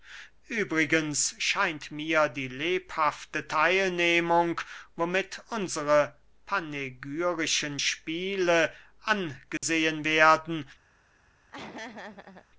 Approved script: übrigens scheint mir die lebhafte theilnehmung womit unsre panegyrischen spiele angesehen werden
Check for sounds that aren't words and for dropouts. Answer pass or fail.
fail